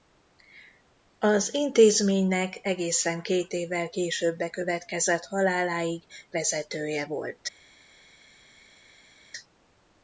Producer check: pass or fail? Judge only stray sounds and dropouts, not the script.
pass